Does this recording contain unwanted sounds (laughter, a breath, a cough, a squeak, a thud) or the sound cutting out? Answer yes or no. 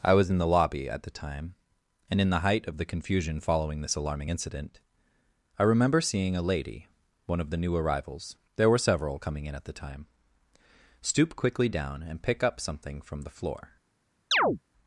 yes